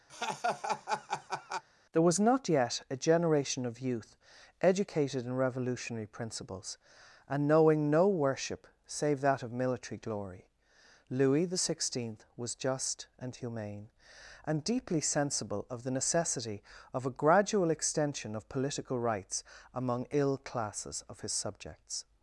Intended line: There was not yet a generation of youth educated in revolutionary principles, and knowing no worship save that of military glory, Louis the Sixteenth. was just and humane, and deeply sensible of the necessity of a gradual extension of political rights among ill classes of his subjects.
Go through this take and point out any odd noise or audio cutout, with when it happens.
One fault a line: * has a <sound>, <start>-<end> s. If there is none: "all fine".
* has a laugh, 0.1-1.6 s